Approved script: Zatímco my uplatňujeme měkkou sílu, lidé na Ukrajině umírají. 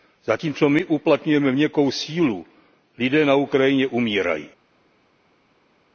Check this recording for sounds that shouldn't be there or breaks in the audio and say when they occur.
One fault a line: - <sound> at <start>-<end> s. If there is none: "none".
none